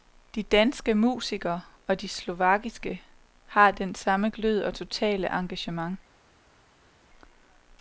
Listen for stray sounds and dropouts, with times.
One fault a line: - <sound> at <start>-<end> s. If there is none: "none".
none